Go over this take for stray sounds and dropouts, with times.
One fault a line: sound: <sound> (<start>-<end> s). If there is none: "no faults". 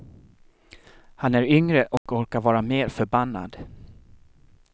sound: dropout (2.0-2.1 s)